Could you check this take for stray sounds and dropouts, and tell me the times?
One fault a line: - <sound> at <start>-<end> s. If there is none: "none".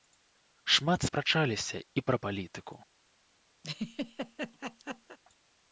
- laugh at 3.6-5.2 s